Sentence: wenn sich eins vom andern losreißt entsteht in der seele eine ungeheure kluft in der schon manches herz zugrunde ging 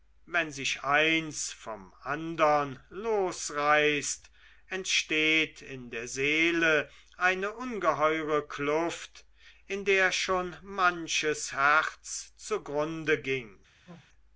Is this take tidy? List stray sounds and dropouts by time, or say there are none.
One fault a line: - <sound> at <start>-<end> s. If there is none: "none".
- sneeze at 13.9-14.1 s